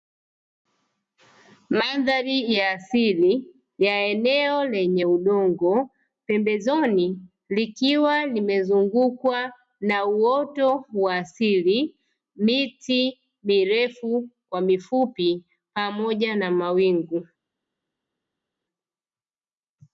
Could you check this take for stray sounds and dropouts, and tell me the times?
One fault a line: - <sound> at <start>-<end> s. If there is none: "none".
none